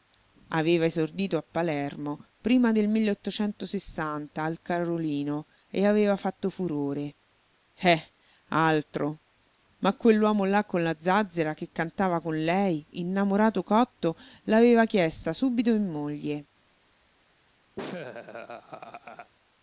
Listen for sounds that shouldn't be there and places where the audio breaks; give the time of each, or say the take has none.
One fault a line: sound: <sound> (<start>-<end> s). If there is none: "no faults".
sound: laugh (17.8-19.3 s)